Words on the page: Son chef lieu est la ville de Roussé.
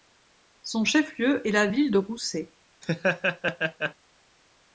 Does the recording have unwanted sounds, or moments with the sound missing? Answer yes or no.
yes